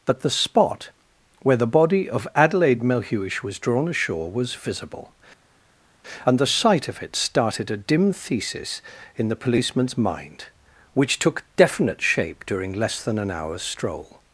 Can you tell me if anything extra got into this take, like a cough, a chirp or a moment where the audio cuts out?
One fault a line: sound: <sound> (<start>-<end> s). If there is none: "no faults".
no faults